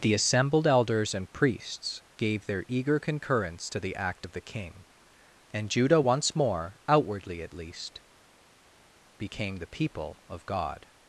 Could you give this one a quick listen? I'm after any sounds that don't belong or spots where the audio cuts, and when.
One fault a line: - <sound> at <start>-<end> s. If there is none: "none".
none